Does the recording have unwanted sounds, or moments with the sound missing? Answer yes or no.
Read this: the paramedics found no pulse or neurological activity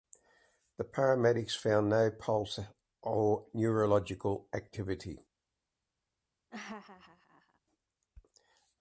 yes